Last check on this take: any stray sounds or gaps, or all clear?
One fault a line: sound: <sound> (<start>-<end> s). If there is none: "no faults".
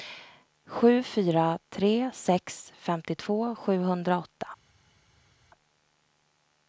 no faults